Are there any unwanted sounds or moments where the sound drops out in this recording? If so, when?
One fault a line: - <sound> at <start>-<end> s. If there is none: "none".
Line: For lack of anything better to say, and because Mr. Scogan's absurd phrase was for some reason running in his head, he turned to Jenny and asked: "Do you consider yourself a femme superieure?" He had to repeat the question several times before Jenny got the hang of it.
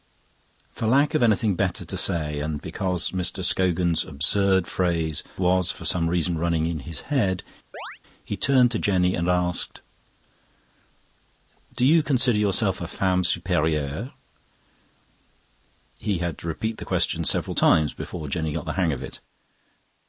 - chirp at 7.7-8.0 s